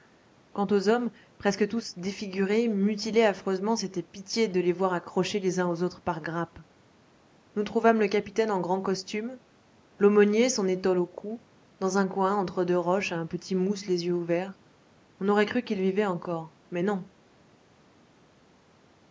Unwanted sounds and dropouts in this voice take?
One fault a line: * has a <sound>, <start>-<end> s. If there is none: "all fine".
all fine